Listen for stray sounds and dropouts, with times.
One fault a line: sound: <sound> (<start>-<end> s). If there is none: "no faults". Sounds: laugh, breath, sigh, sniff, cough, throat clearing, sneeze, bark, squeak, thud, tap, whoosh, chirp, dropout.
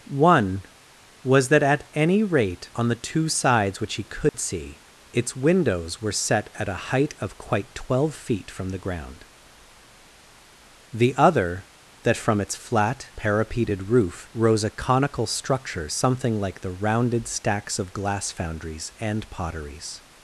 sound: dropout (4.3-4.3 s)